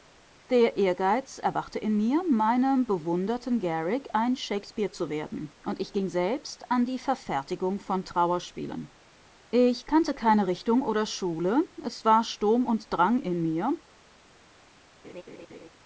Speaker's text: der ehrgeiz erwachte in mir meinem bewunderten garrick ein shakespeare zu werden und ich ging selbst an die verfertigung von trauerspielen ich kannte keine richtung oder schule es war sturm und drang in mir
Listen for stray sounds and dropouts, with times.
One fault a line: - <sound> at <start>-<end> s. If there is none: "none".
- laugh at 15.0-15.7 s